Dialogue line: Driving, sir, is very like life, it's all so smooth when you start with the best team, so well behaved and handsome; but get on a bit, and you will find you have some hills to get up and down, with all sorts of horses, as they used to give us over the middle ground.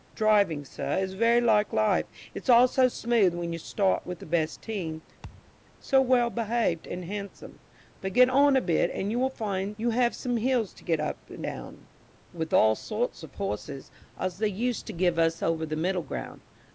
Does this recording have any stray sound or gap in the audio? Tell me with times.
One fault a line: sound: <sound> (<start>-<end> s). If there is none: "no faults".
sound: thud (5.2-5.5 s)